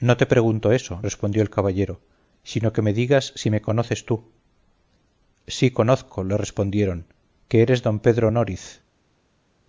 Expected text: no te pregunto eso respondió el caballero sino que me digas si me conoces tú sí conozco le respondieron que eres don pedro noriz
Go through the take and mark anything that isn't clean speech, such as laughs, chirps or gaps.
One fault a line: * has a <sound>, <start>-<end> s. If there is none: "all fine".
all fine